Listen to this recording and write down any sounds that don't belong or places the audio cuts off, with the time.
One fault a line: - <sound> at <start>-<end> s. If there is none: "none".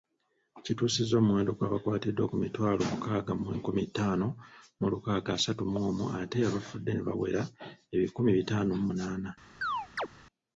- chirp at 9.6-10.1 s